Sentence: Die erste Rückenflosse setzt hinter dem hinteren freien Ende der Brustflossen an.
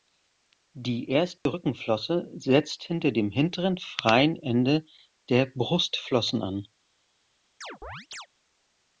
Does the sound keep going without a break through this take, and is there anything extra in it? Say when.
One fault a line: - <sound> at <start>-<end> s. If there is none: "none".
- dropout at 1.4-1.5 s
- chirp at 7.6-8.3 s